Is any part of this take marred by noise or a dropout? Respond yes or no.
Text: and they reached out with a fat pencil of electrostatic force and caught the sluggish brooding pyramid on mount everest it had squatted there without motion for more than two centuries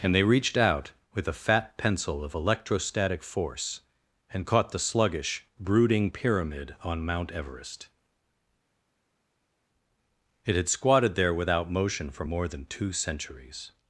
no